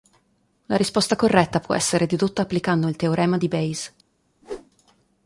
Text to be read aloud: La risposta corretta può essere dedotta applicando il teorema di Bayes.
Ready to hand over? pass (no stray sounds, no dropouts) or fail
fail